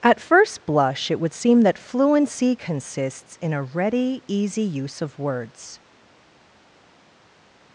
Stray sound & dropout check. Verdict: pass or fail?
pass